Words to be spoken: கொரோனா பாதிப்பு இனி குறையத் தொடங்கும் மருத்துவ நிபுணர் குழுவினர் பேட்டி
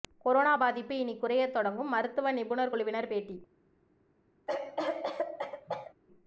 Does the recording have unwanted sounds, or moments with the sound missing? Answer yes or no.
yes